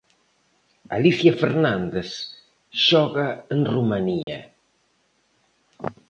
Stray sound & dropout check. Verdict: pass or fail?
fail